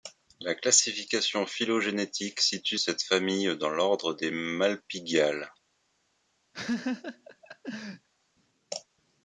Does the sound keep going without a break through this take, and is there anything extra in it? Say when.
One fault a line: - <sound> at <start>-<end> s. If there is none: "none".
- laugh at 6.5-8.1 s